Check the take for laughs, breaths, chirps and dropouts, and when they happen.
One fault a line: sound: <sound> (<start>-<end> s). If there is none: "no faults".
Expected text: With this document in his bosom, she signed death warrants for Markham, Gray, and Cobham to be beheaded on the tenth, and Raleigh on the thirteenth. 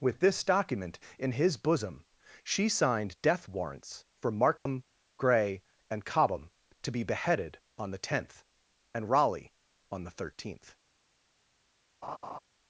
sound: dropout (4.6-4.7 s)
sound: laugh (12.0-12.4 s)